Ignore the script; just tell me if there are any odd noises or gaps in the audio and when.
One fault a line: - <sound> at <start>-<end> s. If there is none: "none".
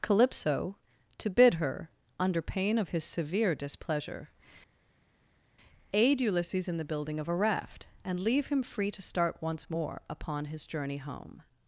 none